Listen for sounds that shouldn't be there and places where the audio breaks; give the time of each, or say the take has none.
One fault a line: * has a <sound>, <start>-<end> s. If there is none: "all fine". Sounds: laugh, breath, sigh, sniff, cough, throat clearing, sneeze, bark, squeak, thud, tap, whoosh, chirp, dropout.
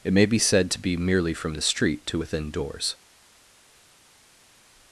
all fine